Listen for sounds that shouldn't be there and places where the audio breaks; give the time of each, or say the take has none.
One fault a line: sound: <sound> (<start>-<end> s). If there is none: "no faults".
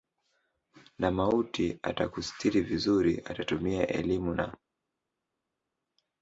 no faults